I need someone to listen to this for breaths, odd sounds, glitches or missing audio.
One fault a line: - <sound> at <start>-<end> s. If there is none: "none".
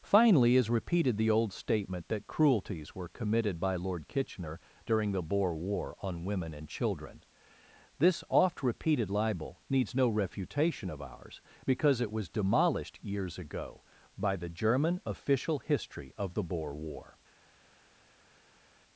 none